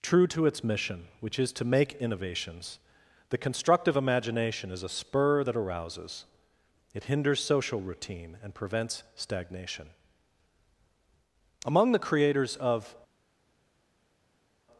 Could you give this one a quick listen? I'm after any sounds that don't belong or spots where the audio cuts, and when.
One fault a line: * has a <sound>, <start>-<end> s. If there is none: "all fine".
all fine